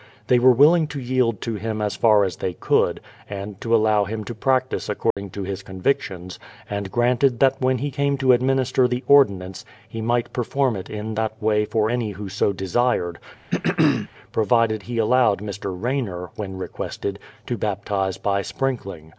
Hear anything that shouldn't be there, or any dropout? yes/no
yes